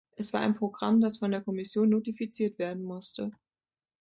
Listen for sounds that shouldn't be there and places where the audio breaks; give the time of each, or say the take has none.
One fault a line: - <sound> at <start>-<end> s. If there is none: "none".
none